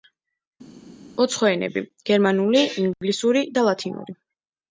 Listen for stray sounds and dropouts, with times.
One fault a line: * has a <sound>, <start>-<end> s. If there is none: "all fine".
all fine